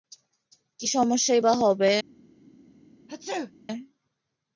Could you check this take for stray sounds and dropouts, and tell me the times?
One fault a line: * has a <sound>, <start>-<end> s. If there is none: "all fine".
* has a sneeze, 3.1-3.5 s